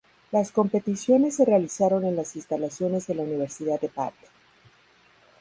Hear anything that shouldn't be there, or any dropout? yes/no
no